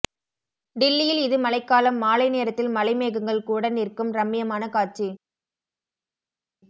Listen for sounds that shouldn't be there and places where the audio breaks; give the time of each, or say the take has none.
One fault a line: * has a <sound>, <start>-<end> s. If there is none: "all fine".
all fine